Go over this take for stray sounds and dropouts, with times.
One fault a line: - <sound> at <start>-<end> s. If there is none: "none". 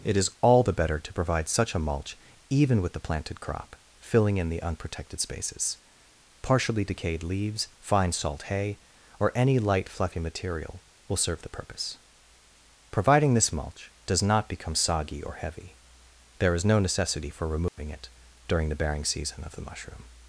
- dropout at 17.7-17.8 s